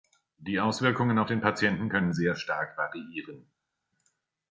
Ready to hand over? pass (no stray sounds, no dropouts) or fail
pass